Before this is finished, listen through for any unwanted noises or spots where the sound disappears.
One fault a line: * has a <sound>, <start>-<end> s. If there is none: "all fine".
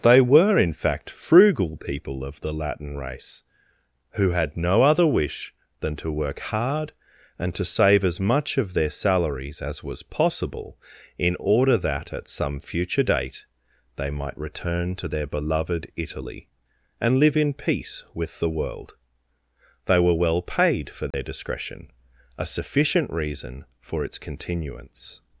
* has a dropout, 21.1-21.1 s